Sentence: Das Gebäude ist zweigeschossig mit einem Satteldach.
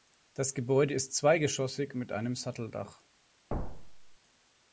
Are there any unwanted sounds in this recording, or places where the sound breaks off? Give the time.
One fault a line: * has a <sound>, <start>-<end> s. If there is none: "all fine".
* has a thud, 3.5-4.2 s